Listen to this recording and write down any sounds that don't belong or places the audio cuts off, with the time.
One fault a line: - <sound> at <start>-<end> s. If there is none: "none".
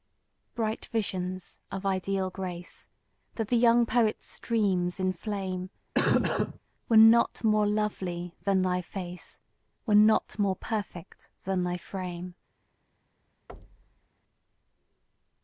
- cough at 5.9-6.6 s
- thud at 13.5-14.1 s